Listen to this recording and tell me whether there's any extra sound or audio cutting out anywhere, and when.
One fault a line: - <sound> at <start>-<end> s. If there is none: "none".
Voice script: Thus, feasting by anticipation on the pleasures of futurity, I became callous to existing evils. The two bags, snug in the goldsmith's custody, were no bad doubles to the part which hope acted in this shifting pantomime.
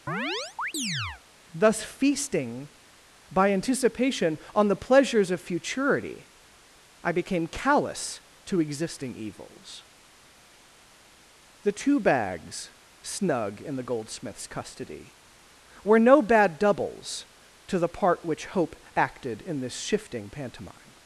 - chirp at 0.1-1.2 s